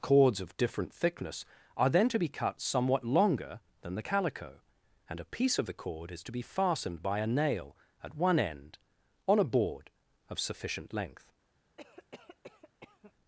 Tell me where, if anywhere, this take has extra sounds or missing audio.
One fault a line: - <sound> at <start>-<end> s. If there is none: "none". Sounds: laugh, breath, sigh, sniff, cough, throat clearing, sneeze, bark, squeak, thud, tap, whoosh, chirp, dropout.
- cough at 11.8-13.1 s